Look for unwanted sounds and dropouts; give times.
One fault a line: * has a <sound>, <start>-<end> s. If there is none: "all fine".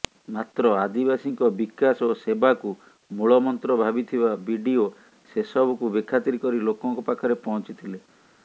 all fine